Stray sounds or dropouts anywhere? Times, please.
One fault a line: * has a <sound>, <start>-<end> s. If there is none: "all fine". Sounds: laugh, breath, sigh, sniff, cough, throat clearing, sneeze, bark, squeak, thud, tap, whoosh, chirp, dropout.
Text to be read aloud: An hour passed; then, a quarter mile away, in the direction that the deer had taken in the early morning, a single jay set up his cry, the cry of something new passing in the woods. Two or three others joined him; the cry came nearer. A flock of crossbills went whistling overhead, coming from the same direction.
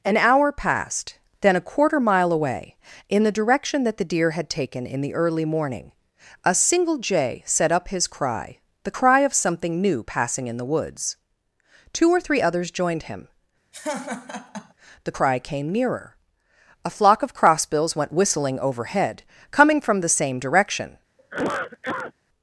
* has a laugh, 13.7-14.7 s
* has a cough, 21.2-22.1 s